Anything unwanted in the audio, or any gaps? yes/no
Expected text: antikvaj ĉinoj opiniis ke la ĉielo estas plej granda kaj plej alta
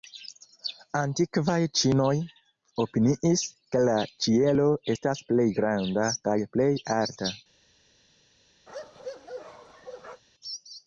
yes